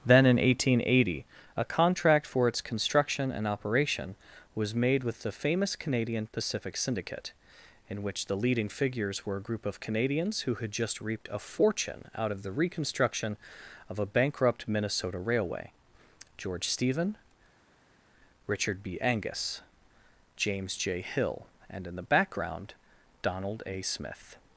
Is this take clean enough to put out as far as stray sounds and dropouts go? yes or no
yes